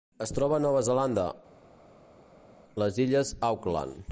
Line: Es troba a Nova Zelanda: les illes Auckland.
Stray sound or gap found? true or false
false